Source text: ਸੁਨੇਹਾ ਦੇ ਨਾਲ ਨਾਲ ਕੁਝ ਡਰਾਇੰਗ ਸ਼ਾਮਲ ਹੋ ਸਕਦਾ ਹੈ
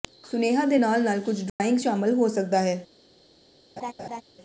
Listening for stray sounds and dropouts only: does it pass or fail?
fail